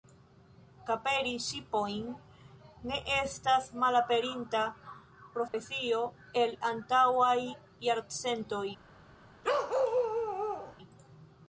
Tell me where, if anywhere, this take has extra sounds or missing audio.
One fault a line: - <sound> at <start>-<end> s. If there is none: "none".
- dropout at 5.5-5.5 s
- bark at 9.4-10.8 s